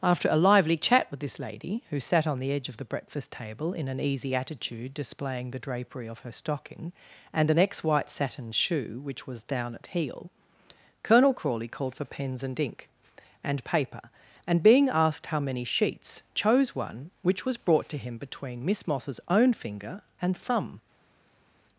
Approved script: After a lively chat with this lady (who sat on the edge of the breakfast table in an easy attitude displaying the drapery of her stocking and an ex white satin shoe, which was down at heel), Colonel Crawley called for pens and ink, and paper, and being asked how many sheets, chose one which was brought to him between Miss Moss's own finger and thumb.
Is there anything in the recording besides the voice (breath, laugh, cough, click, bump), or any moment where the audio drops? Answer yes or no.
no